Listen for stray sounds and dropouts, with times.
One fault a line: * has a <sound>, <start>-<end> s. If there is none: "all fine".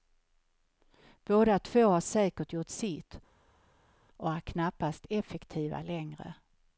all fine